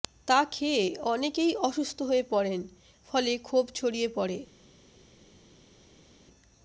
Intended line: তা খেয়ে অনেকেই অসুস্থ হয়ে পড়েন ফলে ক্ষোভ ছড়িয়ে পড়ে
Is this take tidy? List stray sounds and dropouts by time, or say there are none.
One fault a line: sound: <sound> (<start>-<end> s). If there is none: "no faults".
no faults